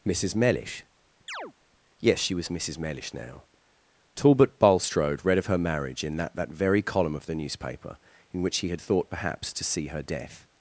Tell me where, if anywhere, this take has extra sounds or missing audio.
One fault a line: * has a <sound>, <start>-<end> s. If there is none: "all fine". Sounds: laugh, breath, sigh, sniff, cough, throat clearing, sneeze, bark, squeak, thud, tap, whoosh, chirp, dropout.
* has a chirp, 1.3-1.5 s